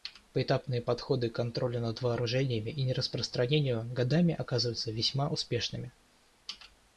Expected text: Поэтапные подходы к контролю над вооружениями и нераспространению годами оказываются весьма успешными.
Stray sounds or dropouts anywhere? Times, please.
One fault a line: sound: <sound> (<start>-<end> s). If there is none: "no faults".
no faults